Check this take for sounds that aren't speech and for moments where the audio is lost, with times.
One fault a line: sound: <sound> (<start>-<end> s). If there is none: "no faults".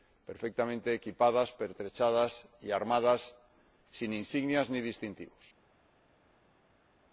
no faults